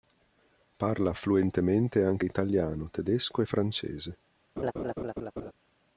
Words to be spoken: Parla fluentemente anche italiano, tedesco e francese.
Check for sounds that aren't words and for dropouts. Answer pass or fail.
fail